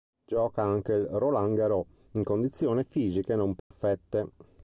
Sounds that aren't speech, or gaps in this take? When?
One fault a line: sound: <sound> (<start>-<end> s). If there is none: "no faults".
sound: dropout (3.6-3.7 s)